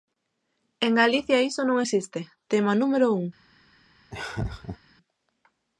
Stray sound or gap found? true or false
true